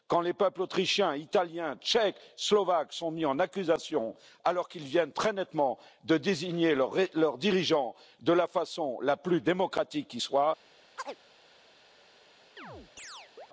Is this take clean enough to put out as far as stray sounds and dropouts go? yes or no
no